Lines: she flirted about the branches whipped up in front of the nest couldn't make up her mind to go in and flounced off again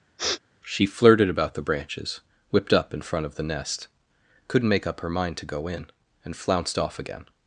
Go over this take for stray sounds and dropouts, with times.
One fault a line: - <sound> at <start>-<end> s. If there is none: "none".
- sniff at 0.2-0.4 s